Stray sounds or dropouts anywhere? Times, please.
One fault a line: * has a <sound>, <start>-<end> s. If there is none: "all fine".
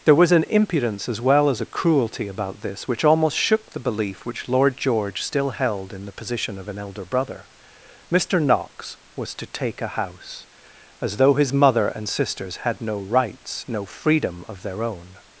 all fine